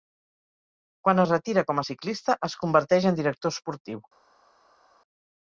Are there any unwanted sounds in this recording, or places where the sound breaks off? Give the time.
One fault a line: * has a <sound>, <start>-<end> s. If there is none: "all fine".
all fine